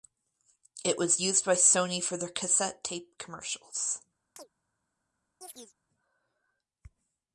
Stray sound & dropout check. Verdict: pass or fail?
fail